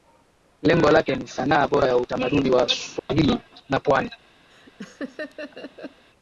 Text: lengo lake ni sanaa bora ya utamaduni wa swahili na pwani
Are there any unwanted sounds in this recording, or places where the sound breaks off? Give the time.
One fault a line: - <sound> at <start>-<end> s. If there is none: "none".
- dropout at 3.0-3.1 s
- laugh at 4.5-6.1 s